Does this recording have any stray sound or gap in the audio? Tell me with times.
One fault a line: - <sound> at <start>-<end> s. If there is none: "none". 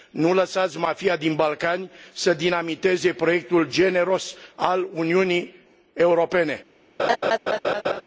- laugh at 7.0-8.0 s